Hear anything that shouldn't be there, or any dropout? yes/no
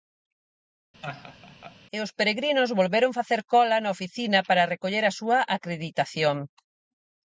yes